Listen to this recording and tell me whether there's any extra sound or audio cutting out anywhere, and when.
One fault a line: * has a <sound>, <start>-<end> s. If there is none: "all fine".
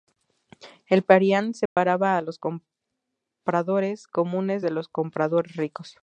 * has a dropout, 1.7-1.8 s